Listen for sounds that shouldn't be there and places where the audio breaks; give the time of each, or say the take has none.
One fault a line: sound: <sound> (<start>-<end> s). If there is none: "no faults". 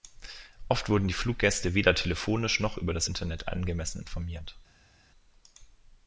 no faults